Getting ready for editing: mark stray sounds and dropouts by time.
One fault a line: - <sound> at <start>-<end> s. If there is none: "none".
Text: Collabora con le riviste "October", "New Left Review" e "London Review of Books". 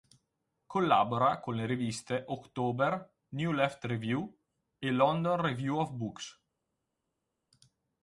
none